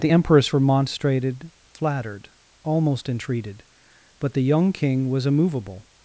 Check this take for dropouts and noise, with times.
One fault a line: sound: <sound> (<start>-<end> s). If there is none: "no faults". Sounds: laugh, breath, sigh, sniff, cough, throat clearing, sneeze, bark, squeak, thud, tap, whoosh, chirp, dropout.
no faults